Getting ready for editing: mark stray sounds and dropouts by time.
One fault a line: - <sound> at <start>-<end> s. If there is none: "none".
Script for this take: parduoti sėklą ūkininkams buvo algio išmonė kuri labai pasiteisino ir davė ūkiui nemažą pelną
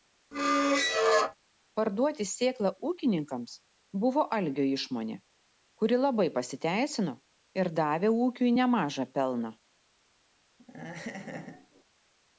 - squeak at 0.3-1.4 s
- laugh at 10.6-11.8 s